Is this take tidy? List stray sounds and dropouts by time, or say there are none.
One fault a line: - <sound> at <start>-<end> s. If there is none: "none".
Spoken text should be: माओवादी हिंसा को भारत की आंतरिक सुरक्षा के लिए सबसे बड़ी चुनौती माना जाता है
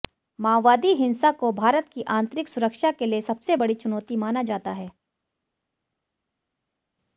none